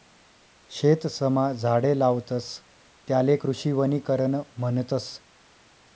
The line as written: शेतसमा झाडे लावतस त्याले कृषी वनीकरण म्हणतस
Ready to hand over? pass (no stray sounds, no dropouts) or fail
pass